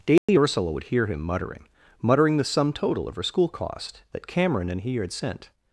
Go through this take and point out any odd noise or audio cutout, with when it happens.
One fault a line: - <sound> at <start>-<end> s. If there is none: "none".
- dropout at 0.2-0.3 s